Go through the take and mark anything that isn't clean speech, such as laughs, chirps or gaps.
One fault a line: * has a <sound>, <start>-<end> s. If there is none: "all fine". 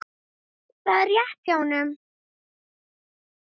all fine